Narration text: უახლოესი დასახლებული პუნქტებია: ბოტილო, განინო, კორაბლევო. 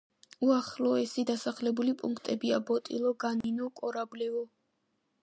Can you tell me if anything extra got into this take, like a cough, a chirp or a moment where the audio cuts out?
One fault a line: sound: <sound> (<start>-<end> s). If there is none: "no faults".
sound: dropout (3.4-3.4 s)